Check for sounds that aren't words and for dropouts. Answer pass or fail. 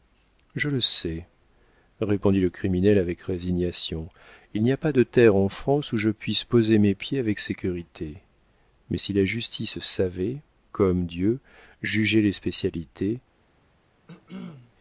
fail